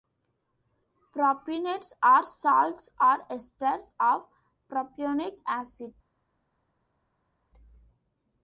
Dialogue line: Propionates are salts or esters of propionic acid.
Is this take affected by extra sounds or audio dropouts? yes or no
no